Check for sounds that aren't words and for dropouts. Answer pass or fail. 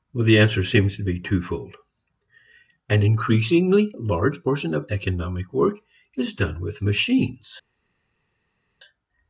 pass